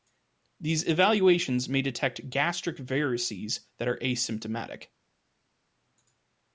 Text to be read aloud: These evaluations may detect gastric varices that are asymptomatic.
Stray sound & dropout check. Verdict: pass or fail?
pass